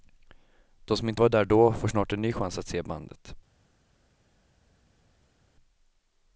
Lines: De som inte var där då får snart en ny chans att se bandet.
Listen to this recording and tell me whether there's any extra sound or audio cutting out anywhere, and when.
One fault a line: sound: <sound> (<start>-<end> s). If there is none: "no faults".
no faults